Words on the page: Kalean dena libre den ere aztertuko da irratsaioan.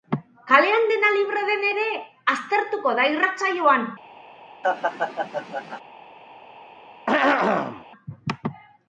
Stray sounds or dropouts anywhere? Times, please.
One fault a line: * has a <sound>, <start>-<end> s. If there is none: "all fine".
* has a laugh, 4.6-5.8 s
* has a throat clearing, 7.1-7.8 s